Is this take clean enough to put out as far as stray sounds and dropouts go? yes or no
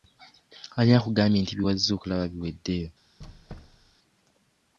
no